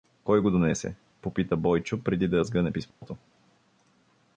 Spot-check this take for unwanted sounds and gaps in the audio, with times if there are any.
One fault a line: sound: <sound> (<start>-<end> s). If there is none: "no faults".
sound: dropout (2.9-3.0 s)